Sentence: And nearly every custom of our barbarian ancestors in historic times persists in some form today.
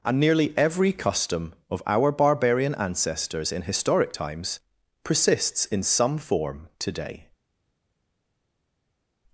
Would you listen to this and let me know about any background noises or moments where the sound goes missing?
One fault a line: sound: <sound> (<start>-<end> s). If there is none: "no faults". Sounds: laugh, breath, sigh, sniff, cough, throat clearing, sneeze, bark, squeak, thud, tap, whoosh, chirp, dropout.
no faults